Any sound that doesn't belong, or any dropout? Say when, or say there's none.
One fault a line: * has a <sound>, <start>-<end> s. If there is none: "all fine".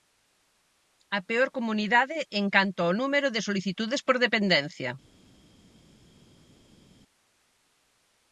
all fine